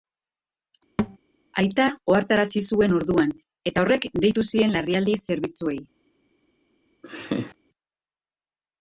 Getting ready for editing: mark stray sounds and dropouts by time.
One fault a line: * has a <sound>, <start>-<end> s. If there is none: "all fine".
* has a thud, 1.0-1.2 s
* has a laugh, 7.0-7.6 s